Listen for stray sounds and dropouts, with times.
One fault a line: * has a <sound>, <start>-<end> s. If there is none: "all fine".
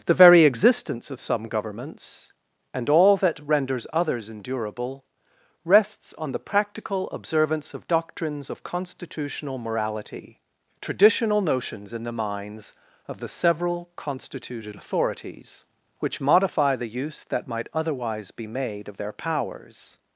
all fine